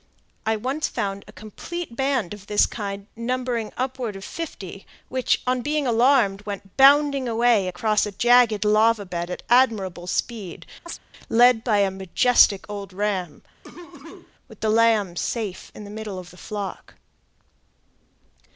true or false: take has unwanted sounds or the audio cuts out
true